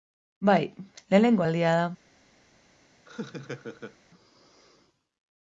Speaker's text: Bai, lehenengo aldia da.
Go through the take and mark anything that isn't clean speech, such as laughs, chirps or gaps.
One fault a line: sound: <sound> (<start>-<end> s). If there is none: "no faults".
sound: laugh (3.1-4.0 s)